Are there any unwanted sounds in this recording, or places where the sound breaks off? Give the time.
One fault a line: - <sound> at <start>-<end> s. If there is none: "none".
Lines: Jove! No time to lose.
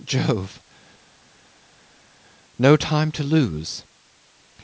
none